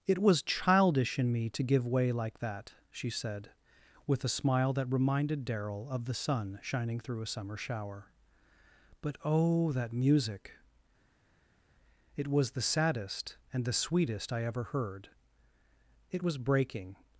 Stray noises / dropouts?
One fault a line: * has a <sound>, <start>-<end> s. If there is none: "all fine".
all fine